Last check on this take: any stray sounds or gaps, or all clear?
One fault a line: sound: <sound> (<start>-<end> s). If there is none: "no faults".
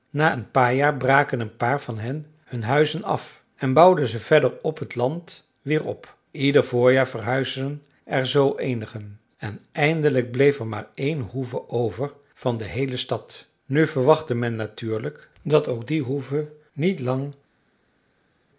no faults